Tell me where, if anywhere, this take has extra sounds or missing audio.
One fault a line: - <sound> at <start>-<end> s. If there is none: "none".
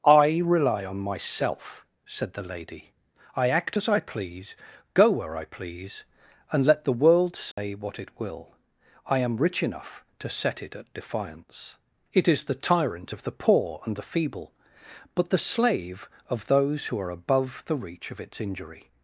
- dropout at 7.5-7.6 s